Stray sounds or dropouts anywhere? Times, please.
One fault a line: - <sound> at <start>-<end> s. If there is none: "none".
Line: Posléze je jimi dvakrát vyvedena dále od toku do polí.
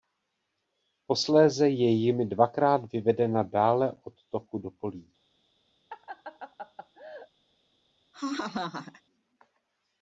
- laugh at 5.9-7.3 s
- laugh at 8.1-9.0 s